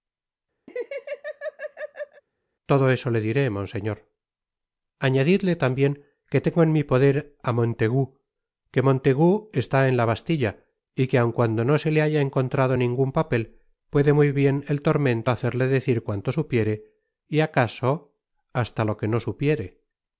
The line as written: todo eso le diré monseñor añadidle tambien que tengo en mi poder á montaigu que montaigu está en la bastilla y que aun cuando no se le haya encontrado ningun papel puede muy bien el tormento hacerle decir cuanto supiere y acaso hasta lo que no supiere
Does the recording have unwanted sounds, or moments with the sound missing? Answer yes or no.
yes